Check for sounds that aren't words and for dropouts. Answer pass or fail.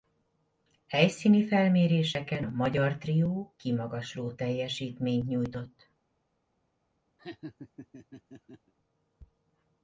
fail